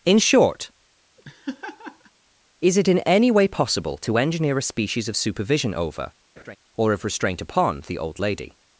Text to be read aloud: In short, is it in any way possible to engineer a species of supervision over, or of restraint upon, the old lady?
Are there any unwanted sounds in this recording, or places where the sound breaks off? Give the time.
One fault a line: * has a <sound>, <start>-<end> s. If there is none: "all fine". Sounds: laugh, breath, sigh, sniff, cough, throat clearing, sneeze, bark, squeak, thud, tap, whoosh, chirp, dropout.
* has a laugh, 1.2-2.1 s
* has a laugh, 6.4-6.6 s